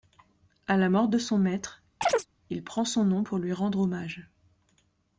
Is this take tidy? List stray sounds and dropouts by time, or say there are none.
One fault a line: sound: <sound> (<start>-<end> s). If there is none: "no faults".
sound: chirp (2.0-2.3 s)